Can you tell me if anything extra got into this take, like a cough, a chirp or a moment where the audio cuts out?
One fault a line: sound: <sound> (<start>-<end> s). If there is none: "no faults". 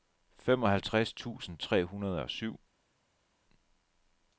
no faults